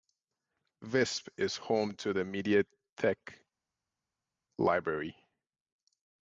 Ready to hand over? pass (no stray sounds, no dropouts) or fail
pass